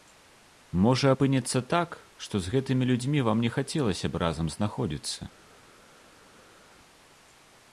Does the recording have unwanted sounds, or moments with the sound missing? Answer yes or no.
no